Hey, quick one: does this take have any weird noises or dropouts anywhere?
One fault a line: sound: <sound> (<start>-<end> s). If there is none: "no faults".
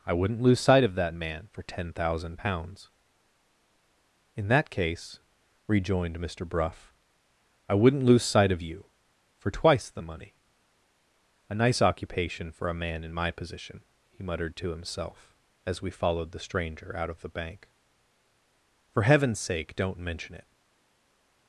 no faults